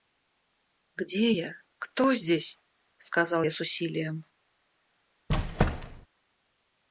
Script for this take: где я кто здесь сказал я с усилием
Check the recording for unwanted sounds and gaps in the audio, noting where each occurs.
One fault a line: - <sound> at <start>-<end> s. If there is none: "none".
- squeak at 5.3-6.1 s